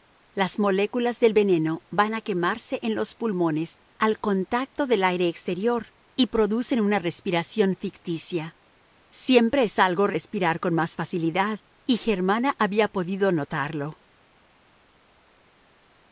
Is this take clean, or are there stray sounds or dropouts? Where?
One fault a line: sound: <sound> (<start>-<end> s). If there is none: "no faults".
no faults